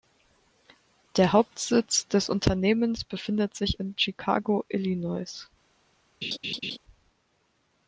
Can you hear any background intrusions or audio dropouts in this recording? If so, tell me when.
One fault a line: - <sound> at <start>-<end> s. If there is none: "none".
- laugh at 6.2-6.8 s